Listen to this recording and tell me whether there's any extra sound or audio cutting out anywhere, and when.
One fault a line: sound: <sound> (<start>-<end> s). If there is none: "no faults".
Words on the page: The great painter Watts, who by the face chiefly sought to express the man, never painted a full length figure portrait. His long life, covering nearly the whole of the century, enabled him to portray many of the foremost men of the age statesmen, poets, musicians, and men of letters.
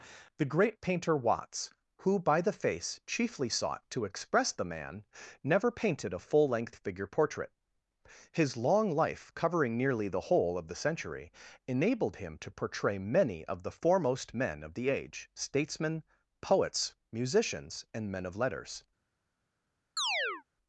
sound: chirp (20.0-20.4 s)